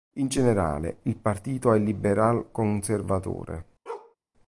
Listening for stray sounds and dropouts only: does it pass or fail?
fail